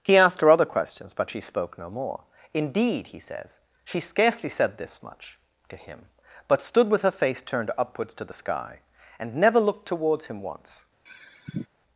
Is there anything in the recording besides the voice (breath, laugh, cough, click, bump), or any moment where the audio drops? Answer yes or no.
yes